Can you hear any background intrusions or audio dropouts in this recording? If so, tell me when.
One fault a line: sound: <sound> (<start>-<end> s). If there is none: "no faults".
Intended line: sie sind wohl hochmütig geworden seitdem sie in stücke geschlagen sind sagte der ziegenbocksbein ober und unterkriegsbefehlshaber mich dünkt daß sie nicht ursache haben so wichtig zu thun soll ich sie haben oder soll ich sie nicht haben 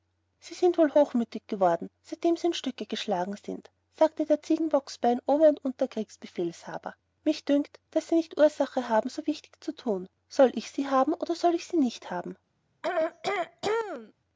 sound: throat clearing (12.8-14.1 s)